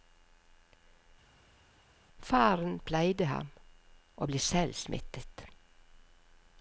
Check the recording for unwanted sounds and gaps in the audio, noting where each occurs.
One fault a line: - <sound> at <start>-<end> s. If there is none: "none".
none